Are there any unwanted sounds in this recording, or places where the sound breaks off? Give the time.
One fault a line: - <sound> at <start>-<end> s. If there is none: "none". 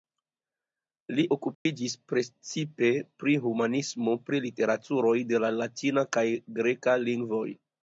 - dropout at 1.5-1.7 s